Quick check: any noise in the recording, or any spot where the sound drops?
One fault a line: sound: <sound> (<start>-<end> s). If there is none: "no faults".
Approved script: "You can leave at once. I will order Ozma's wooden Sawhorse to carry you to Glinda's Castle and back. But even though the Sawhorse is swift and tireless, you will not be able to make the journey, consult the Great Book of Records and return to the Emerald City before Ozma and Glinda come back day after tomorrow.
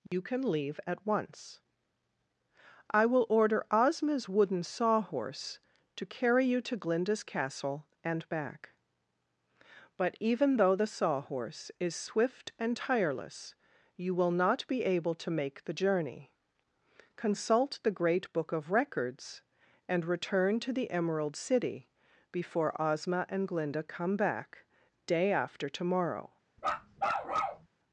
sound: dropout (0.1-0.1 s)
sound: bark (26.6-27.7 s)